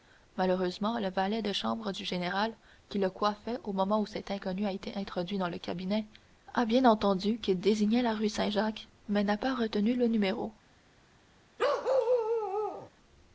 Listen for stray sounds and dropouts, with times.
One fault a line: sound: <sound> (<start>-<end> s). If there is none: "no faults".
sound: bark (11.6-12.9 s)